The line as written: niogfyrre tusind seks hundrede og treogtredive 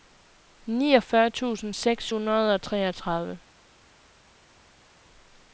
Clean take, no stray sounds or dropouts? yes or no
yes